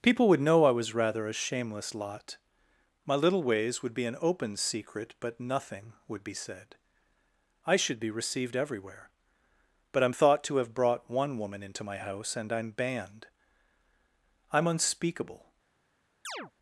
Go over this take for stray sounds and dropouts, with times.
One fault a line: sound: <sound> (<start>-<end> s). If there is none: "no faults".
sound: chirp (16.2-16.5 s)